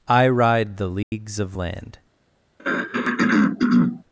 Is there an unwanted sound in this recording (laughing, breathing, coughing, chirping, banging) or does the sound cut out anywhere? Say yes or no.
yes